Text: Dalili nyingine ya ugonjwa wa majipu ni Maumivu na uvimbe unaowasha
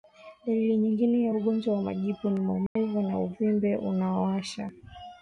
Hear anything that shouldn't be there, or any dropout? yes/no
yes